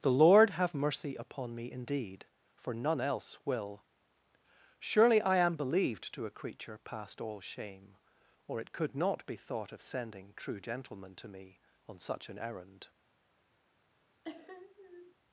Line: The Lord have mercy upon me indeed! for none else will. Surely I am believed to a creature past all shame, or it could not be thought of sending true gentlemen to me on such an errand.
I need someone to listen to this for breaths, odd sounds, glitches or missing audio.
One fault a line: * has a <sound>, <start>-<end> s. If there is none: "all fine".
* has a sniff, 14.2-15.2 s